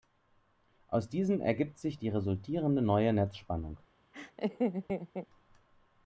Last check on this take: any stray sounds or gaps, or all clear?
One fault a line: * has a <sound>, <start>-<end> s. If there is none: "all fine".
* has a laugh, 4.1-5.3 s